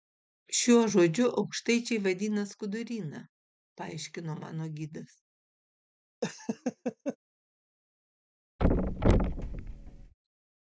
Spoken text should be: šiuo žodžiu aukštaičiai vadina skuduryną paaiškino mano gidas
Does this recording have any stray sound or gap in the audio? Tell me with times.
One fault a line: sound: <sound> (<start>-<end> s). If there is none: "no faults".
sound: laugh (6.2-7.2 s)
sound: thud (8.6-10.1 s)